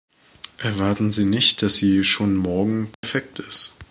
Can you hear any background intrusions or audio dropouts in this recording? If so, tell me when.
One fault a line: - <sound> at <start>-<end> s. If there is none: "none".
- dropout at 2.9-3.0 s